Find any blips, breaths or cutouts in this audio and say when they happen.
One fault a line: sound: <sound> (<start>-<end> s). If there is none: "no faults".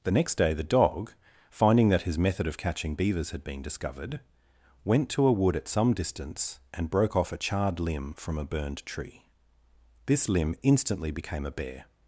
no faults